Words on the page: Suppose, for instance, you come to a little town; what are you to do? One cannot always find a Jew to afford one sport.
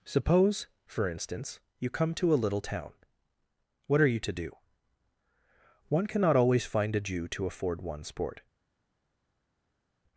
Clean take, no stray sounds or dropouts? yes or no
yes